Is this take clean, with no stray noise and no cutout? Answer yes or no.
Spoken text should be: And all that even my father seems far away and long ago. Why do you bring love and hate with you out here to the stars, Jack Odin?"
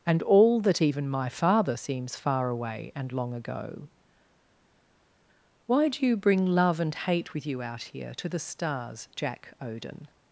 yes